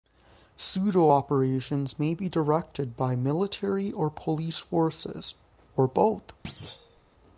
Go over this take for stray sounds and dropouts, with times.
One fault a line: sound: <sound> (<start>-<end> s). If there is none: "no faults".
sound: thud (6.4-7.0 s)